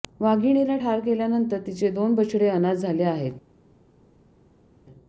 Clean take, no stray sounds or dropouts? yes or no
yes